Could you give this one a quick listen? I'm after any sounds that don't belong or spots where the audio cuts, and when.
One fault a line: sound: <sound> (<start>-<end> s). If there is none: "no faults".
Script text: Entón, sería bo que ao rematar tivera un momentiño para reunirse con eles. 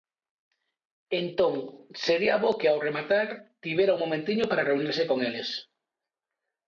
no faults